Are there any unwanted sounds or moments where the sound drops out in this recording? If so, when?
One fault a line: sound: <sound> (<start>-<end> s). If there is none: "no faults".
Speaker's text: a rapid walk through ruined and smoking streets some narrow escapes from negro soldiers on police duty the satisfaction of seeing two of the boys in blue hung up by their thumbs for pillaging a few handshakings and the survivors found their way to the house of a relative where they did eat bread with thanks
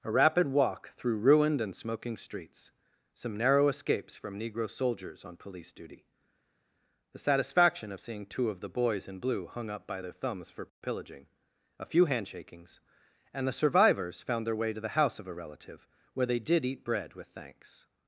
no faults